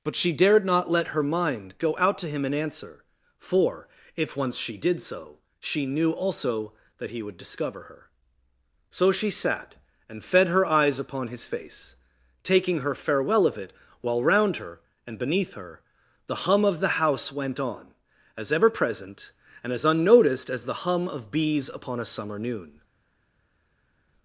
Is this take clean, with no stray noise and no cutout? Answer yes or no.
yes